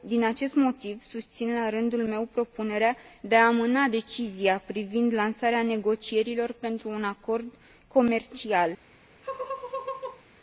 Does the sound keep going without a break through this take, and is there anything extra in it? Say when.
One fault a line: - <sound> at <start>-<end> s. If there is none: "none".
- laugh at 9.2-10.2 s